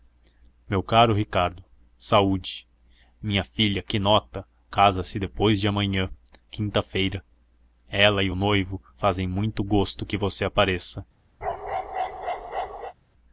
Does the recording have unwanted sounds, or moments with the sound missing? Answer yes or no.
yes